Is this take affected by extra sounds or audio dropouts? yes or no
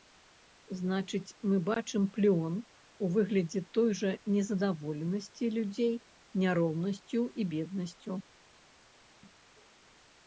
no